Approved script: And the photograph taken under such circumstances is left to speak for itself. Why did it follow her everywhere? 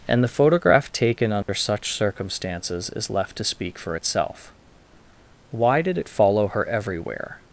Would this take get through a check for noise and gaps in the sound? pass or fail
fail